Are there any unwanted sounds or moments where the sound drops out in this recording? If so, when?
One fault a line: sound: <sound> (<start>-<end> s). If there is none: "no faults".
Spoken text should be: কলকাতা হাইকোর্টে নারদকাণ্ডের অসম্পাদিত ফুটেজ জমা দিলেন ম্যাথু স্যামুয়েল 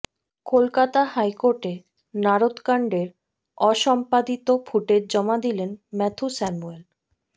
no faults